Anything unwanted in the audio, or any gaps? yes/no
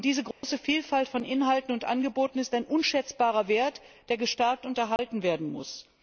yes